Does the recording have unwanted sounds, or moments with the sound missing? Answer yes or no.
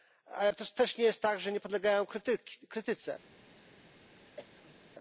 yes